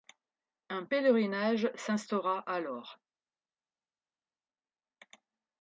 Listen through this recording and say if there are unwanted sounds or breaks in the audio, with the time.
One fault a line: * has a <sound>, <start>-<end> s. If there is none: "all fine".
all fine